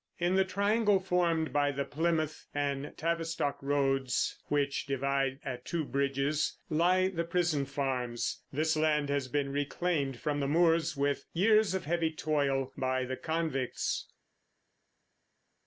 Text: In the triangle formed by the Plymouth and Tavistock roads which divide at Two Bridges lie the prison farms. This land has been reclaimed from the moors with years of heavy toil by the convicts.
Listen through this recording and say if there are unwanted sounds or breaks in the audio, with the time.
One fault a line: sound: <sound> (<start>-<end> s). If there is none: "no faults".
no faults